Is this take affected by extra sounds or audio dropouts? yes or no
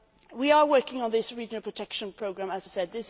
no